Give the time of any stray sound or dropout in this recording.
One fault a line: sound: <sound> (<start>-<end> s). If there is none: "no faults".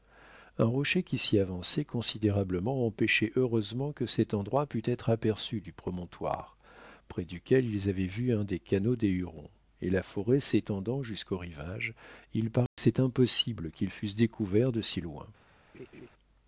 sound: dropout (12.7-12.8 s)
sound: laugh (15.7-16.1 s)